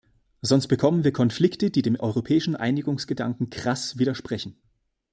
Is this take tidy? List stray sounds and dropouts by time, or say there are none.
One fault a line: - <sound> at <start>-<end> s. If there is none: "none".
none